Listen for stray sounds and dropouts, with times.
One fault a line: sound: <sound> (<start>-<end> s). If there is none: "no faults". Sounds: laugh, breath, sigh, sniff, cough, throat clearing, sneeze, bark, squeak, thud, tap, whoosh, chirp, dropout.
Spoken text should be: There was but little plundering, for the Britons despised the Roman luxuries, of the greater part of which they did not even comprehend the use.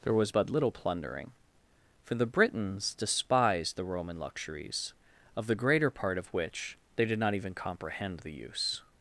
no faults